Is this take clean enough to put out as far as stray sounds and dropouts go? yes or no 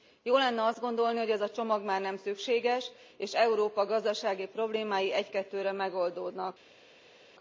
yes